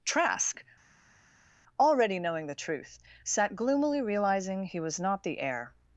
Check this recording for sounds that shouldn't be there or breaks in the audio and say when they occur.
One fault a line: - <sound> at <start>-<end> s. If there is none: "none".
none